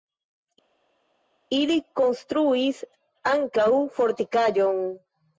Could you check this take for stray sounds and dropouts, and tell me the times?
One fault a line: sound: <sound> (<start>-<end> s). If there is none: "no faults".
no faults